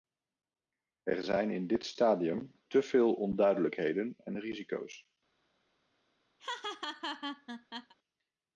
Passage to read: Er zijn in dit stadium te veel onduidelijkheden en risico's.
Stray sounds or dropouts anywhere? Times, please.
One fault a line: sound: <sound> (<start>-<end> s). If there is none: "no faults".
sound: laugh (6.4-7.9 s)